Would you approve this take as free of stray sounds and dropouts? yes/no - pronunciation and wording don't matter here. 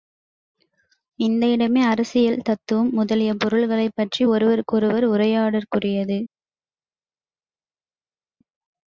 yes